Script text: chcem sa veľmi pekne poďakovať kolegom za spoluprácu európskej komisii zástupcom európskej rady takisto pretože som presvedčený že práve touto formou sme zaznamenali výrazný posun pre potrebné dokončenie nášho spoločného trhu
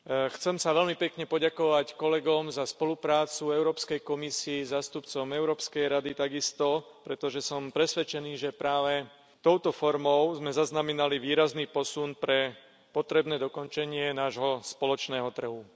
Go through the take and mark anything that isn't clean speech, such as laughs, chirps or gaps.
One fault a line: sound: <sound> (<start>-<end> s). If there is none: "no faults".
no faults